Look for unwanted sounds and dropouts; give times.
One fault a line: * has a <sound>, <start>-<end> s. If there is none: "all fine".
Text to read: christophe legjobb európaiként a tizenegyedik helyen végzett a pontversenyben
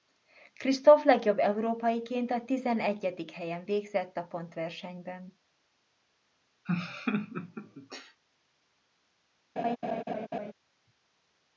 * has a laugh, 6.7-8.2 s
* has a laugh, 9.6-10.5 s